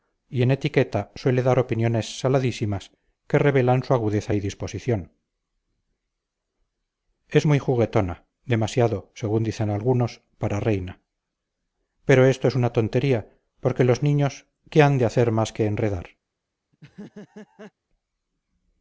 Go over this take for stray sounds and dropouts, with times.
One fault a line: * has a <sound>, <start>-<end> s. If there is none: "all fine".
* has a laugh, 16.7-17.7 s